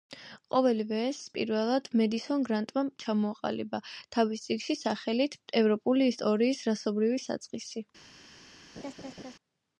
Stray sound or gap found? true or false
true